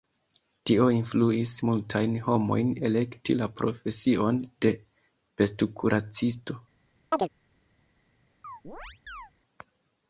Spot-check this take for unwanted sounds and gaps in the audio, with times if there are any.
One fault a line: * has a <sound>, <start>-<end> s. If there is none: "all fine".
* has a chirp, 7.1-7.3 s
* has a chirp, 8.4-9.3 s